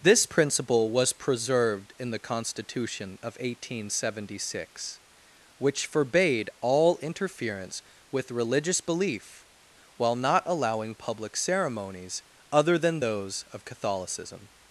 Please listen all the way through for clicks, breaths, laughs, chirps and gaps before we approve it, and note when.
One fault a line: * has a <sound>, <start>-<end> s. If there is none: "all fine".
all fine